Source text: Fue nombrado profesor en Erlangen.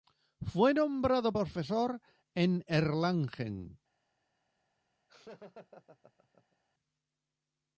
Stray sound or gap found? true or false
true